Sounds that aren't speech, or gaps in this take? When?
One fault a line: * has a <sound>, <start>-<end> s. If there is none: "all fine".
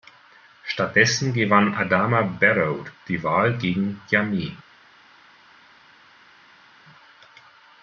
all fine